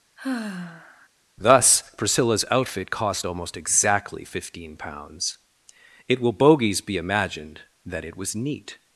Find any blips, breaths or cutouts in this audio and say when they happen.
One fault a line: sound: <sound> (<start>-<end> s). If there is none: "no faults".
sound: sigh (0.2-1.1 s)